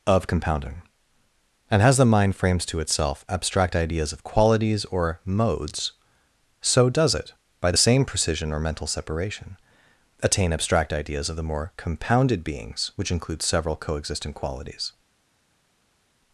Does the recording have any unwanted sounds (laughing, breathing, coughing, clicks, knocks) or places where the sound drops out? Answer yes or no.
no